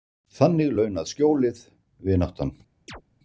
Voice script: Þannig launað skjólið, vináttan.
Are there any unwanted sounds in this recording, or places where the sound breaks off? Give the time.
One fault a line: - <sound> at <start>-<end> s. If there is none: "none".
- chirp at 2.9-3.0 s